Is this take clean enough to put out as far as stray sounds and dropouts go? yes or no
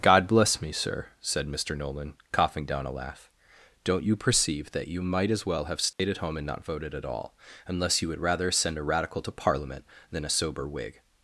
no